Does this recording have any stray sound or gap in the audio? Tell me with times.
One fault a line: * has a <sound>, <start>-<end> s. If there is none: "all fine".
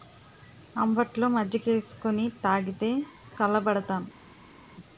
all fine